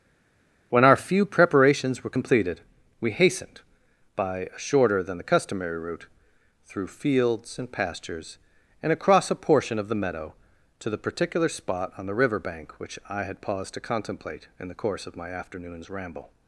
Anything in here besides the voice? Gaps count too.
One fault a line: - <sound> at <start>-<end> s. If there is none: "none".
none